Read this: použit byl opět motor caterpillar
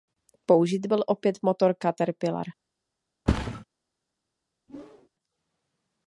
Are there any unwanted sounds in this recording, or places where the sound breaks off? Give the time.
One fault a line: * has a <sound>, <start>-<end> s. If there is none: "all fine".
* has a thud, 3.3-3.6 s
* has a whoosh, 4.7-5.1 s